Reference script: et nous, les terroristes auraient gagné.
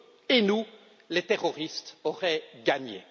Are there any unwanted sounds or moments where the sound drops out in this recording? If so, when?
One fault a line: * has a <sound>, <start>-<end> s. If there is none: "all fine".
all fine